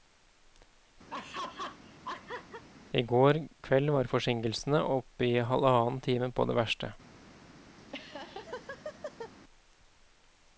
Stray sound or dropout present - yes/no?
yes